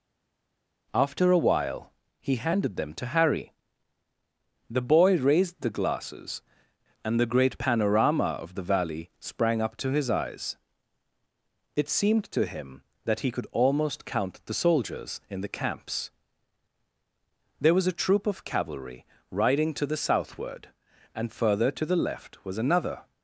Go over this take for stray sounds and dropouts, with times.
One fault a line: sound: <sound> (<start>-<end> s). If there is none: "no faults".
no faults